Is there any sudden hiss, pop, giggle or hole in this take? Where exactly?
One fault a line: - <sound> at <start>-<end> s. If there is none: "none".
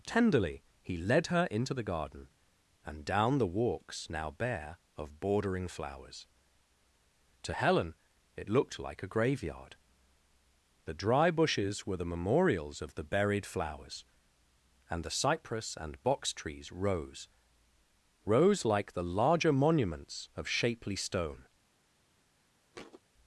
- thud at 22.7-23.0 s